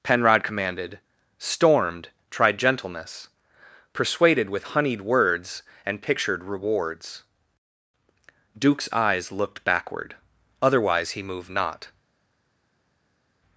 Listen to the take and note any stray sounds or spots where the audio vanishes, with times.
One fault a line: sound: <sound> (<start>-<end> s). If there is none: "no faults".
no faults